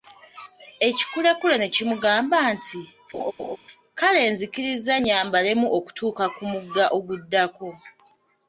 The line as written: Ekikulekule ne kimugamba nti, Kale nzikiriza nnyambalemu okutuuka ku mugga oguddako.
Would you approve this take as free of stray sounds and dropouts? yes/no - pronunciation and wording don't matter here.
no